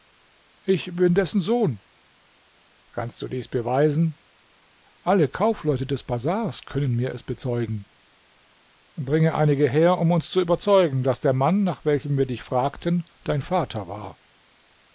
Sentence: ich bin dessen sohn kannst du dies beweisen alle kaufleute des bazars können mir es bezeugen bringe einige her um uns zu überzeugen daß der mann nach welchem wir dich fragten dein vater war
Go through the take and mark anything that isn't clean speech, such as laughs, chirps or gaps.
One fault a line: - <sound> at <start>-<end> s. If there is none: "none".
none